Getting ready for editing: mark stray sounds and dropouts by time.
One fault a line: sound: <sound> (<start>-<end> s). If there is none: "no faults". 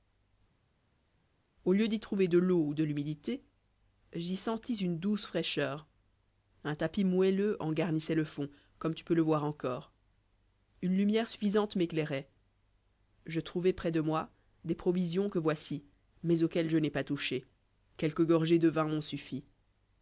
no faults